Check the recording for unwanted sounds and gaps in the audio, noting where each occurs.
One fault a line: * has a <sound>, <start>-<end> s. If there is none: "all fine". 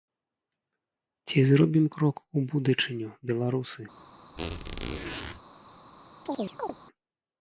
* has a squeak, 4.4-5.4 s
* has a chirp, 6.3-6.8 s